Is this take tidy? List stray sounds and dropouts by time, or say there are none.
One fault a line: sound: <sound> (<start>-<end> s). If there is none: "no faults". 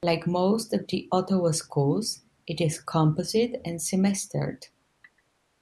no faults